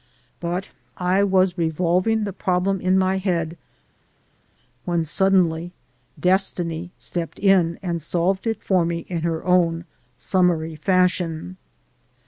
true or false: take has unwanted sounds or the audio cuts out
false